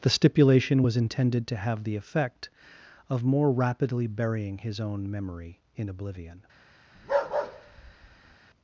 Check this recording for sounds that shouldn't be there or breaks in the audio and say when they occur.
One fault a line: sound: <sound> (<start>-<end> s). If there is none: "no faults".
sound: bark (6.9-8.4 s)